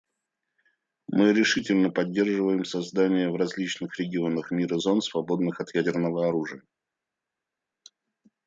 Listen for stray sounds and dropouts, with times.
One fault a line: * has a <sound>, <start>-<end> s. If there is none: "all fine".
all fine